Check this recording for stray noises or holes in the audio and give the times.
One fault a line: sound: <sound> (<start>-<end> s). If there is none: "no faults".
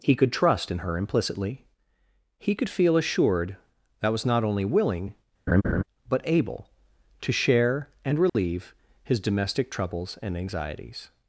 sound: laugh (5.5-5.8 s)
sound: dropout (8.3-8.3 s)